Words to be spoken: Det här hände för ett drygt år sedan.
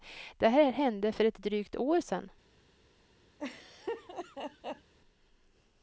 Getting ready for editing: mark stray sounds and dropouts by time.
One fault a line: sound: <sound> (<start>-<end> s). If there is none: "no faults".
sound: laugh (3.4-4.9 s)